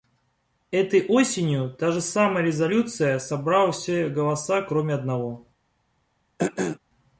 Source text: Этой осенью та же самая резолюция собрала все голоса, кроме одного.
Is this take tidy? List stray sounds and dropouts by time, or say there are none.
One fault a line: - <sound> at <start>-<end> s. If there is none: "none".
- throat clearing at 6.4-6.8 s